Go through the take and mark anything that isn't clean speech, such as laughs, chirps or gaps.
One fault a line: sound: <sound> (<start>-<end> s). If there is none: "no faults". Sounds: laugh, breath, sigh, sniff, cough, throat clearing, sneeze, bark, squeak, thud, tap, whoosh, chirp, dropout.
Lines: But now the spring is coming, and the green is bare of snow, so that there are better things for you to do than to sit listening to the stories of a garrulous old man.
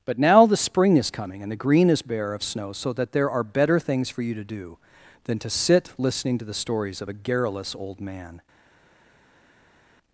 no faults